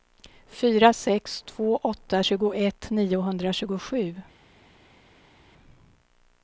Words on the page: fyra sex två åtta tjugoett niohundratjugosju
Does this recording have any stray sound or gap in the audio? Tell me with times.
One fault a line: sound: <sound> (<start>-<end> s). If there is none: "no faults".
no faults